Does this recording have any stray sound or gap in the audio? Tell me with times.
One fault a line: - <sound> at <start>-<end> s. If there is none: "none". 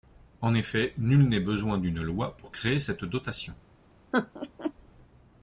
- laugh at 4.1-4.7 s